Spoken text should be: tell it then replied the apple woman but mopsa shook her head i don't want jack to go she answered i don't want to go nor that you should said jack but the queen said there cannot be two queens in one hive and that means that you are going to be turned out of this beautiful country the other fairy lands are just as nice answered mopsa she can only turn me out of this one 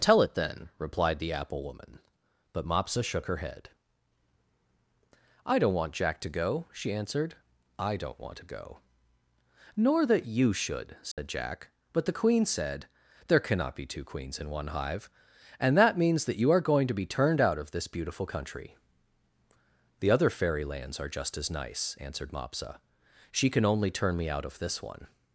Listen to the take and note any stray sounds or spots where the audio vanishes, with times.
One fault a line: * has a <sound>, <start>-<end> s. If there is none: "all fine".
* has a dropout, 11.1-11.2 s